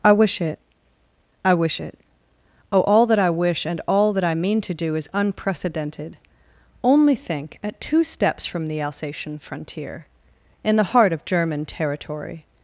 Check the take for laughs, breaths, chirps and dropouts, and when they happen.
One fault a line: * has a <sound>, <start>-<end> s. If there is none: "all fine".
all fine